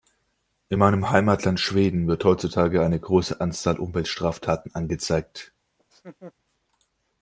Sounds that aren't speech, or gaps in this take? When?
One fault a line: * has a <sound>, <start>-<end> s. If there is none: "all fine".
* has a laugh, 5.8-6.3 s